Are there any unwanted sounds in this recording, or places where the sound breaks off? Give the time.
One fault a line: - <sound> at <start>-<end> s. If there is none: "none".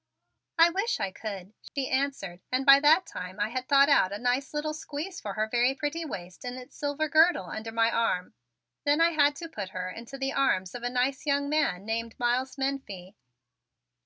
- dropout at 1.7-1.8 s